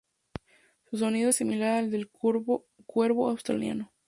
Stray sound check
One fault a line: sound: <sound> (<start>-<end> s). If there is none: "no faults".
no faults